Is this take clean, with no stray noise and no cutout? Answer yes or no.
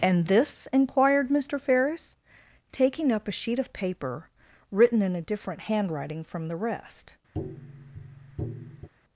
no